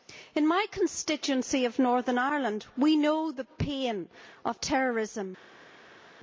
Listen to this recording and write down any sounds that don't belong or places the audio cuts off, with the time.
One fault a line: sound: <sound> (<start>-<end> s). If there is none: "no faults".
no faults